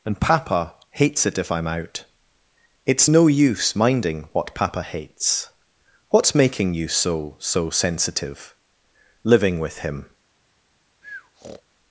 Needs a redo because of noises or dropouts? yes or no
yes